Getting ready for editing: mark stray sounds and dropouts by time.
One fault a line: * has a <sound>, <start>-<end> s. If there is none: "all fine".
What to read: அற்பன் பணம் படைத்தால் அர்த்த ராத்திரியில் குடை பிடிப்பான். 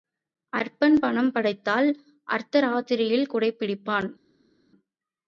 all fine